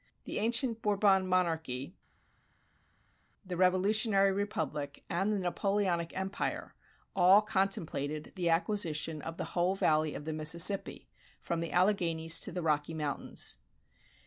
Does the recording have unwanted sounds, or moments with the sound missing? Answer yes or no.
no